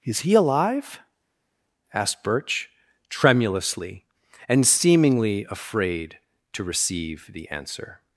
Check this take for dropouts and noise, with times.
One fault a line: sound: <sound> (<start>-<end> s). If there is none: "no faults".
no faults